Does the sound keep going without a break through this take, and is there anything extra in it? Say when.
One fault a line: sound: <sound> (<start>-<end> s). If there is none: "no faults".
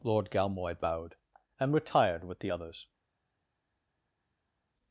no faults